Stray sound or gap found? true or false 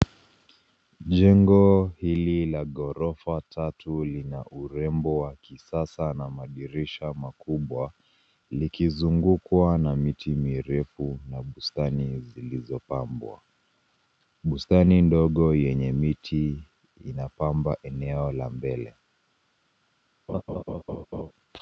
true